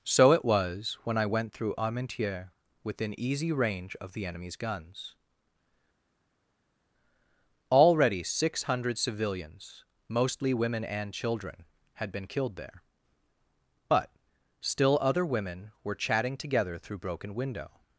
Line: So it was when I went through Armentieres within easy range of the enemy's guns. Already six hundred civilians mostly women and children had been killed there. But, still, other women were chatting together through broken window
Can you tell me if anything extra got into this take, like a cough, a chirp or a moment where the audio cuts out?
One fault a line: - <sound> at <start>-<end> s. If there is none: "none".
none